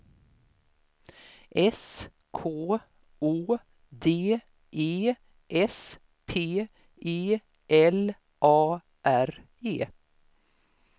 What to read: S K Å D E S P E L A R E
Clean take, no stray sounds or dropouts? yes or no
yes